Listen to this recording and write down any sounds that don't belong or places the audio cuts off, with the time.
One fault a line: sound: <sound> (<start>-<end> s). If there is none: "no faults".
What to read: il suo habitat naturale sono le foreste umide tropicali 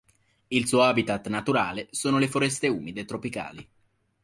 no faults